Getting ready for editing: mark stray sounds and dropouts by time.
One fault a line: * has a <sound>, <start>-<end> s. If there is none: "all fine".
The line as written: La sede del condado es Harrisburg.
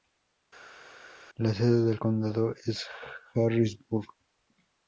all fine